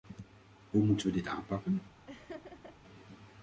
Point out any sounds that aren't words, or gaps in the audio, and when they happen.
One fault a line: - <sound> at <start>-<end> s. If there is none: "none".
- laugh at 2.1-2.8 s